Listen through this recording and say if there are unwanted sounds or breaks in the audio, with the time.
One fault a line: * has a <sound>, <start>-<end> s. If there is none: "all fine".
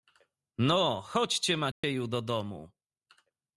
* has a dropout, 1.7-1.8 s